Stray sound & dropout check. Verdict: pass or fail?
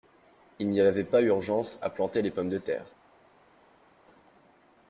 pass